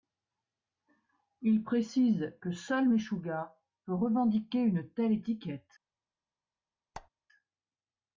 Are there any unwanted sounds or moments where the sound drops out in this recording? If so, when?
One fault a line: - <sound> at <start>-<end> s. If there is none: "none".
- squeak at 6.9-7.1 s